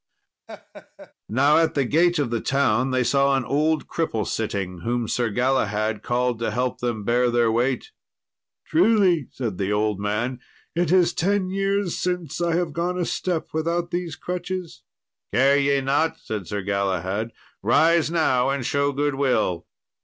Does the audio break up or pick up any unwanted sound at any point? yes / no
yes